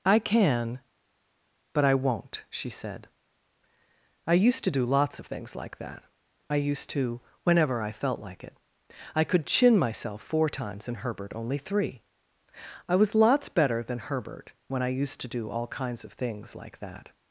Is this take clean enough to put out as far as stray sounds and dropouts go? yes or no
yes